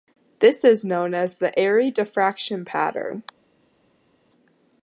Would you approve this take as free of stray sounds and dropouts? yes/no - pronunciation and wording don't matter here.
yes